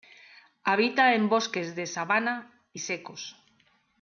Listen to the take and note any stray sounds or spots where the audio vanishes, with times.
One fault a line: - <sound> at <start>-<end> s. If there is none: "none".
none